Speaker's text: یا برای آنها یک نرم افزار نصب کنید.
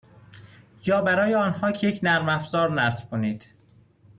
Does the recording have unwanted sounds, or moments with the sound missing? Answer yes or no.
no